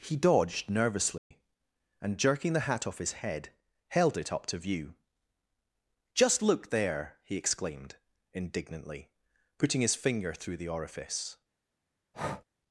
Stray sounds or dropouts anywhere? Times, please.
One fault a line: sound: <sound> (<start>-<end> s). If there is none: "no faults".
sound: dropout (1.2-1.3 s)
sound: breath (12.1-12.4 s)